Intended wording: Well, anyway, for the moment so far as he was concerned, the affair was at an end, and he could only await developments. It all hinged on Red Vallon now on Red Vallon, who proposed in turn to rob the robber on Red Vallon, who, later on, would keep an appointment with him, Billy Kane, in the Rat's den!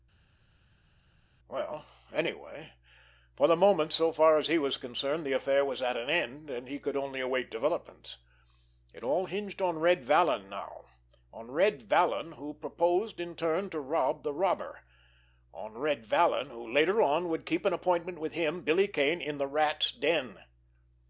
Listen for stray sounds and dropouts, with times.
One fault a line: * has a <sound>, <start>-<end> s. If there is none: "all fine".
all fine